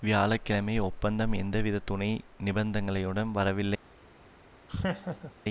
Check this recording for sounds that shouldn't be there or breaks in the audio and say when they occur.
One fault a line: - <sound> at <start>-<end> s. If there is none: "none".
- laugh at 4.7-5.3 s